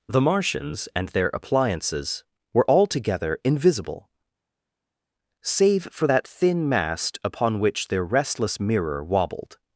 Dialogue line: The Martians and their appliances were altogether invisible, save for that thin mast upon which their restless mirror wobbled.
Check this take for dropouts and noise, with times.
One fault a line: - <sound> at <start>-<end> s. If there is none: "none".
none